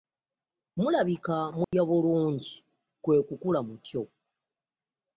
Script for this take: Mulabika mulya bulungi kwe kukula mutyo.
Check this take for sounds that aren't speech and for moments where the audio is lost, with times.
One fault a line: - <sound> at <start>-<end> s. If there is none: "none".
- dropout at 1.6-1.7 s